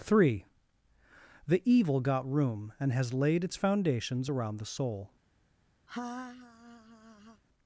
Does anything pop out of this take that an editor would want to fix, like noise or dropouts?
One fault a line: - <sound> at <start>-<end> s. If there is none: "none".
- laugh at 5.9-7.4 s